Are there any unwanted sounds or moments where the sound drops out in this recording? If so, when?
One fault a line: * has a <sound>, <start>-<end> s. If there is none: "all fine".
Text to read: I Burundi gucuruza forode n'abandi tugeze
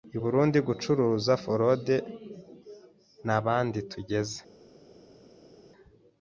all fine